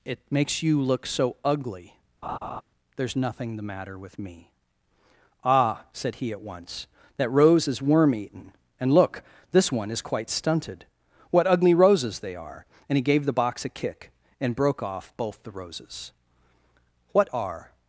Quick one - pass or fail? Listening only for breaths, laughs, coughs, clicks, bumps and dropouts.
fail